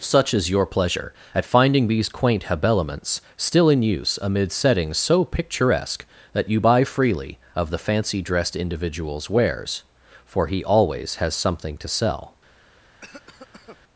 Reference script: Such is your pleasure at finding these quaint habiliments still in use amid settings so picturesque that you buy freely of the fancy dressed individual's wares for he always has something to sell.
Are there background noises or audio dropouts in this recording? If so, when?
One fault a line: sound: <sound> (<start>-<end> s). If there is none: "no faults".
sound: cough (13.0-13.8 s)